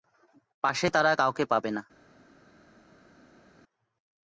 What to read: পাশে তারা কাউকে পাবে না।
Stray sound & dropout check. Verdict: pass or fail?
pass